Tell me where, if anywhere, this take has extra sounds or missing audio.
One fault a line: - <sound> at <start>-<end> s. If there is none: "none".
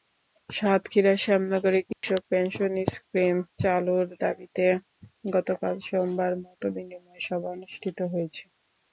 - dropout at 1.9-2.0 s